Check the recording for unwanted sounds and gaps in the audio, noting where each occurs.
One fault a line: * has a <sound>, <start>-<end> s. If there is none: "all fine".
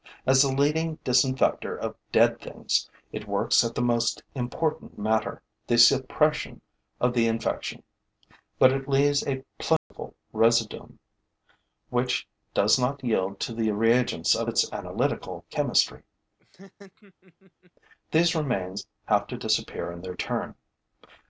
* has a dropout, 9.8-9.9 s
* has a laugh, 16.4-17.7 s